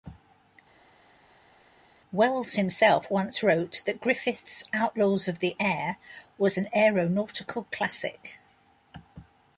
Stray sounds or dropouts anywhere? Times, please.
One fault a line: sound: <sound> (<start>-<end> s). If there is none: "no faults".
no faults